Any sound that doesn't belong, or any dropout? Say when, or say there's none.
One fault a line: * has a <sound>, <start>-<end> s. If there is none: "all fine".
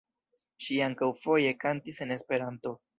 all fine